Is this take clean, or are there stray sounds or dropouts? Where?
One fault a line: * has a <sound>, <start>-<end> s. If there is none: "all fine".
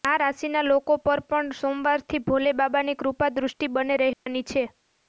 * has a dropout, 4.1-4.3 s